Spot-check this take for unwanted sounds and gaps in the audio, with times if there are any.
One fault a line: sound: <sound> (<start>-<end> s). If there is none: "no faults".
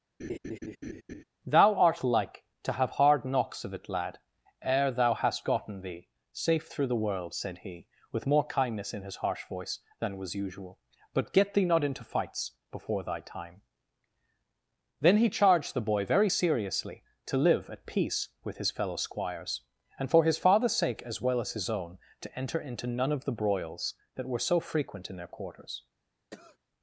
sound: laugh (0.2-1.2 s)
sound: cough (26.3-26.6 s)